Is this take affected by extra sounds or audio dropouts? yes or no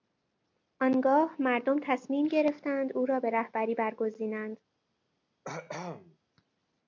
yes